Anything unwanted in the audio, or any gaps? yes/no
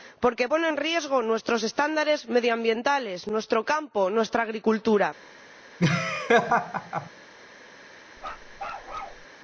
yes